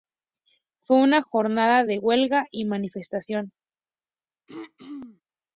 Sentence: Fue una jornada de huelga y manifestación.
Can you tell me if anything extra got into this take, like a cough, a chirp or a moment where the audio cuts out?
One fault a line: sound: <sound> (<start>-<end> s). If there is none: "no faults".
sound: throat clearing (4.5-5.2 s)